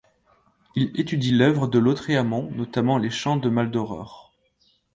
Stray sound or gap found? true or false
false